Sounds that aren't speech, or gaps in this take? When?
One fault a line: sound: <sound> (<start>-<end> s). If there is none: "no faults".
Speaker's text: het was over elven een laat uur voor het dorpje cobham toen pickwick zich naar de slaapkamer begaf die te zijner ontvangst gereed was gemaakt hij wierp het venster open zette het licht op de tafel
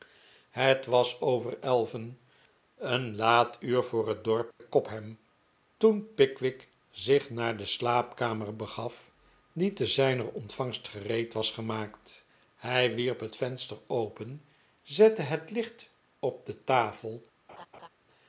sound: dropout (4.5-4.6 s)
sound: laugh (17.5-17.9 s)